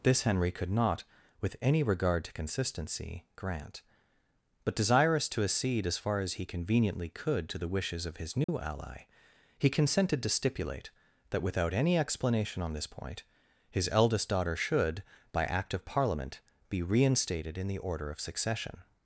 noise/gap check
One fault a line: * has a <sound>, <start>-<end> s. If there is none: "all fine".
* has a dropout, 8.4-8.5 s